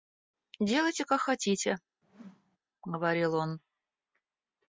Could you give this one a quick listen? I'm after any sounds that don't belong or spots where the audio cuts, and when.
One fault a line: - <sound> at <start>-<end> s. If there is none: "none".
- whoosh at 2.0-2.6 s